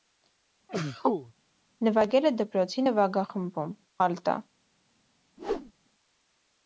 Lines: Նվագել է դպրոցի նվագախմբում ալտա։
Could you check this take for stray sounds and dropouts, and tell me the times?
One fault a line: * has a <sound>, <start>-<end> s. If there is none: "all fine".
* has a sneeze, 0.7-1.3 s
* has a whoosh, 5.4-5.7 s